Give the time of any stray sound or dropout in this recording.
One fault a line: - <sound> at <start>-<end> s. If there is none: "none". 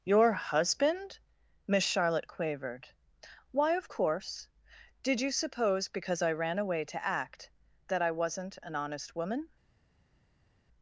none